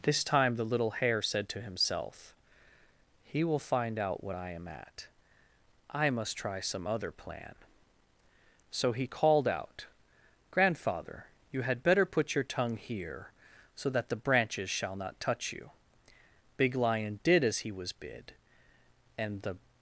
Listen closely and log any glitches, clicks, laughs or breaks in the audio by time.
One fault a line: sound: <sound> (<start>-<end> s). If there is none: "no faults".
no faults